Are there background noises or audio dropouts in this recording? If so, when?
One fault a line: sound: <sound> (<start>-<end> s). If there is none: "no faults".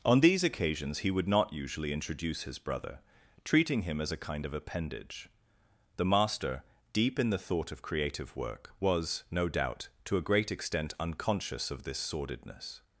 no faults